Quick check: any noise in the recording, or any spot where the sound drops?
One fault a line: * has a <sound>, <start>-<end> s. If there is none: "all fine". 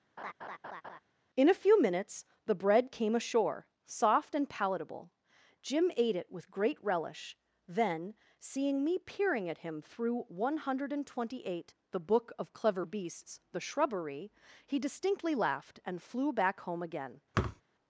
* has a laugh, 0.2-1.0 s
* has a thud, 17.3-17.6 s